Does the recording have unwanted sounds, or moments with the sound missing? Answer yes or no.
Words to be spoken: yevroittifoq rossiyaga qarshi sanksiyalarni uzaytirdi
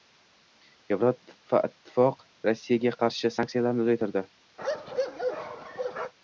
yes